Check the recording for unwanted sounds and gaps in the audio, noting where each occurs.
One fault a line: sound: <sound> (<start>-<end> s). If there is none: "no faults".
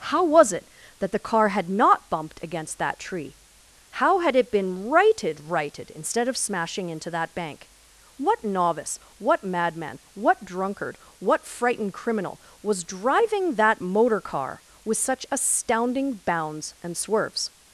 no faults